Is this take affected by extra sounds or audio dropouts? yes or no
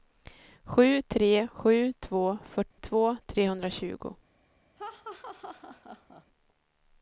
yes